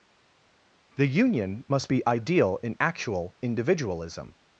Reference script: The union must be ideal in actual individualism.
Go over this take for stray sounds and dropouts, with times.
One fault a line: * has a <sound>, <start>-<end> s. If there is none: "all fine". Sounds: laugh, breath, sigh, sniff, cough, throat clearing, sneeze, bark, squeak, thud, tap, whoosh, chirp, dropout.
all fine